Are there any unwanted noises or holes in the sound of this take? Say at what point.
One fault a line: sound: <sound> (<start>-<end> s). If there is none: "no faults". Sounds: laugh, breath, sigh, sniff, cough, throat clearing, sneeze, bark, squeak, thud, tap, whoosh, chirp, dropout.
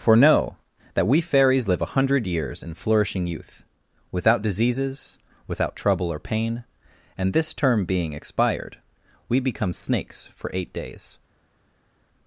no faults